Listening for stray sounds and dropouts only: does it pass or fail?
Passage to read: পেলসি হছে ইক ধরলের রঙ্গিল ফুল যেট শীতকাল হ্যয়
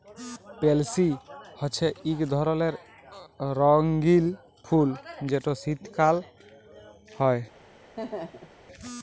fail